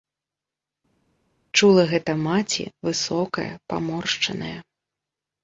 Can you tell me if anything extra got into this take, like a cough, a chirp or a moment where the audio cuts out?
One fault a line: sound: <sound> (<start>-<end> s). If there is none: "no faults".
no faults